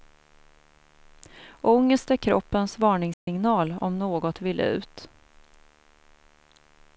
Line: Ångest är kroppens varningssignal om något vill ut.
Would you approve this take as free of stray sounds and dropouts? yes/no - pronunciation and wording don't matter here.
no